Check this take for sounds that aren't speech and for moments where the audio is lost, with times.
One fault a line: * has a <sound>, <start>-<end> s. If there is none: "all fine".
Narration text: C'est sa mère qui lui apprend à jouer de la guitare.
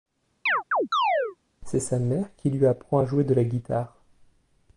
* has a chirp, 0.5-1.4 s